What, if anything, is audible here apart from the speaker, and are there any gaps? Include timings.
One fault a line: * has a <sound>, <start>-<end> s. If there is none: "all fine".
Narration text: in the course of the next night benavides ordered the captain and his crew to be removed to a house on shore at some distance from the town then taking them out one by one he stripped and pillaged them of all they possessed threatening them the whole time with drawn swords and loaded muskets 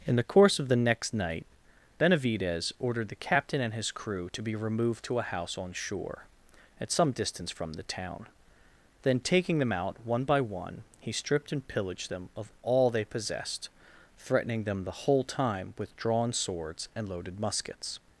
all fine